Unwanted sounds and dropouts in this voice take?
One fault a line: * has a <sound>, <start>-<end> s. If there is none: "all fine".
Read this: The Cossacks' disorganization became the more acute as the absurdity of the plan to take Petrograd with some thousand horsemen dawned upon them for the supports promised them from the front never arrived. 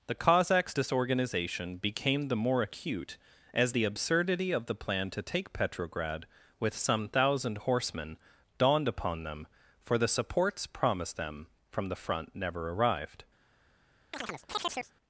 * has a chirp, 14.1-14.9 s